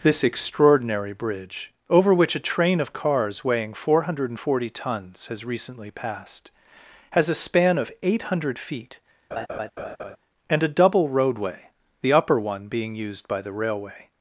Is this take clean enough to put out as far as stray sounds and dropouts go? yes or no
no